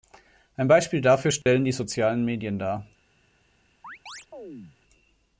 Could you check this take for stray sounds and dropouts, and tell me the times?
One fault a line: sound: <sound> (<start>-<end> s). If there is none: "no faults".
sound: dropout (1.4-1.5 s)
sound: chirp (3.8-4.8 s)